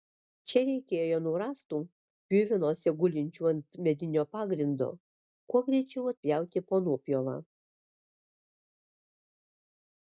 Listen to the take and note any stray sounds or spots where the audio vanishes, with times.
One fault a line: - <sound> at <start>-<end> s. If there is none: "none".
none